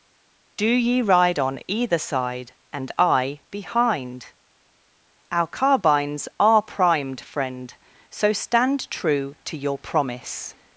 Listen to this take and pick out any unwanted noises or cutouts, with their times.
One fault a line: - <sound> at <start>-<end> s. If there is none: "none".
none